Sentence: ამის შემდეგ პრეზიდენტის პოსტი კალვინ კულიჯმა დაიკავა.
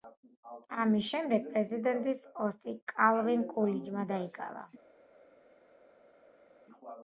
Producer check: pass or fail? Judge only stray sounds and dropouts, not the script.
pass